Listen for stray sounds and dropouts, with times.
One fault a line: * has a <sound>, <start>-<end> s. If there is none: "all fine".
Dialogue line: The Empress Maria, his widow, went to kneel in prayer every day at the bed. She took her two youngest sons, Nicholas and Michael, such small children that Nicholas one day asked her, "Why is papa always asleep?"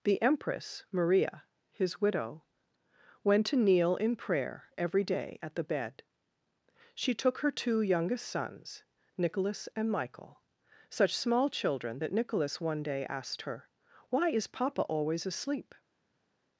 all fine